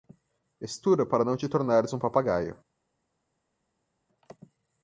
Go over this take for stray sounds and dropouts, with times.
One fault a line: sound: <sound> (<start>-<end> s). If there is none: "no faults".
no faults